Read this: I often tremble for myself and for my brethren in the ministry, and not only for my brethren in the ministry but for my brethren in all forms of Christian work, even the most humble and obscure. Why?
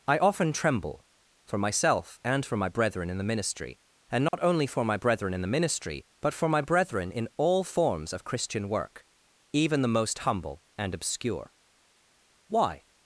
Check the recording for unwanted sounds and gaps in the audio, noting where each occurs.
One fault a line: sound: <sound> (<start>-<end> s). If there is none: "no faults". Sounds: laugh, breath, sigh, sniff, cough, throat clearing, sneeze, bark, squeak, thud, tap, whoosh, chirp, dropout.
sound: dropout (4.3-4.3 s)